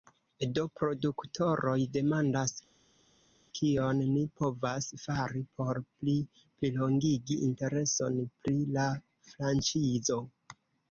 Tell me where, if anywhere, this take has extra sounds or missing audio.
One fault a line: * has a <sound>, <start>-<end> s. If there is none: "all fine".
all fine